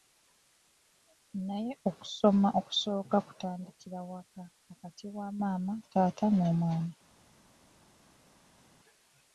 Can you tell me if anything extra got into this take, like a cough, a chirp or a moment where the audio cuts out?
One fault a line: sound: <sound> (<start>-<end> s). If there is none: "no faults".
no faults